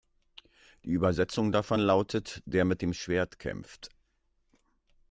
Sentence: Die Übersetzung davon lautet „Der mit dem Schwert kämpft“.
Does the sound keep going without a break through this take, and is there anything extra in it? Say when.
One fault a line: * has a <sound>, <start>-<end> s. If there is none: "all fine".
all fine